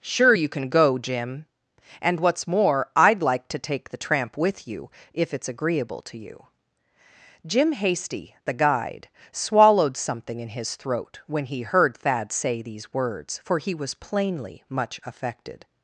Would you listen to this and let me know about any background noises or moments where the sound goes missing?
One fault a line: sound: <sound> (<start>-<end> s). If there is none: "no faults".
no faults